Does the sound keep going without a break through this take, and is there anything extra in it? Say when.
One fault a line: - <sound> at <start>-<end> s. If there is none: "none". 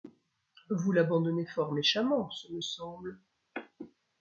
none